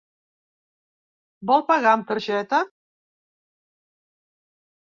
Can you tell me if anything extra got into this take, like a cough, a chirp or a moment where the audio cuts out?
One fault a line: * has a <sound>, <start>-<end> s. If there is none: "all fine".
all fine